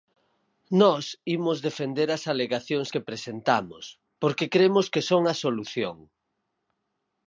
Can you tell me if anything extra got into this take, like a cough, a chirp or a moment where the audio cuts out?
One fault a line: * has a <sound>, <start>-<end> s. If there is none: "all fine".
all fine